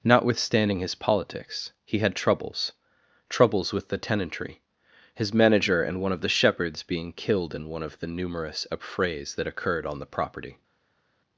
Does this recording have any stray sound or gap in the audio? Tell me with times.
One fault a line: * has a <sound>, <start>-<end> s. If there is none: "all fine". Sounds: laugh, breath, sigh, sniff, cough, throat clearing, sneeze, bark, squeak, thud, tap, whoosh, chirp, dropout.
all fine